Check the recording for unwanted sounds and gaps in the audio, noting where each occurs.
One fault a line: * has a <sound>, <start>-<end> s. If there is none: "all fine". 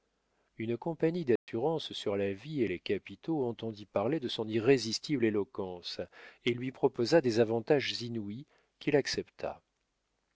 * has a dropout, 1.4-1.5 s